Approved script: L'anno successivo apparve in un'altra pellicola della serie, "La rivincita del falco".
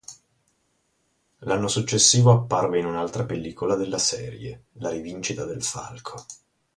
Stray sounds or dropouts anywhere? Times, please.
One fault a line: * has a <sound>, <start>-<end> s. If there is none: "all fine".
all fine